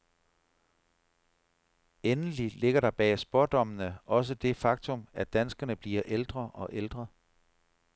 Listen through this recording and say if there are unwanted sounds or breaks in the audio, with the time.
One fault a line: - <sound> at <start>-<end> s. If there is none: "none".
none